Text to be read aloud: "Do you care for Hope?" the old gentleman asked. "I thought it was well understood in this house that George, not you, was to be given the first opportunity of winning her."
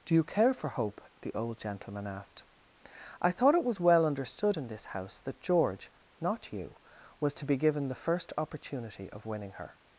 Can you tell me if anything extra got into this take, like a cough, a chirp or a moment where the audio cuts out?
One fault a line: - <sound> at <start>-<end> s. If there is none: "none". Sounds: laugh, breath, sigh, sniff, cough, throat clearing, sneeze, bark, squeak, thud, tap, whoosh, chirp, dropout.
none